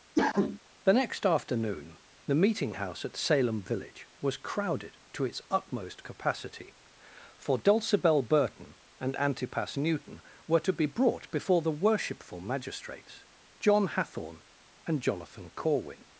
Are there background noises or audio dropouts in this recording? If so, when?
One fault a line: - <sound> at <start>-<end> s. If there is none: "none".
- cough at 0.2-0.6 s